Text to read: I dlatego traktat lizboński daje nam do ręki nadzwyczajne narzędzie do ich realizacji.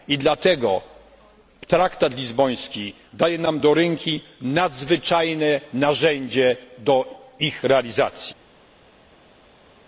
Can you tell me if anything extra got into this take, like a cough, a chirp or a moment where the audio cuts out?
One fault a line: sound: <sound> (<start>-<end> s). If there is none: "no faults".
no faults